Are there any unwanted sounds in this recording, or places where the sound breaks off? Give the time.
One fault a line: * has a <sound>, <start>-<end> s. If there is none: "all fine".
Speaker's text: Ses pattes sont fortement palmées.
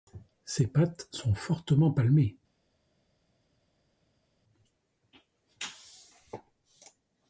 all fine